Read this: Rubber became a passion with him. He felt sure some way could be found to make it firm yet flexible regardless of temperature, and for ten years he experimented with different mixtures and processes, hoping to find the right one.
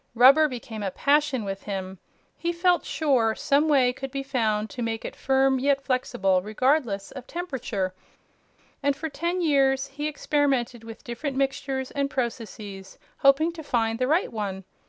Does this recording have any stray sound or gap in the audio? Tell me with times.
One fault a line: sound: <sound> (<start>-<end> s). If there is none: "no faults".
no faults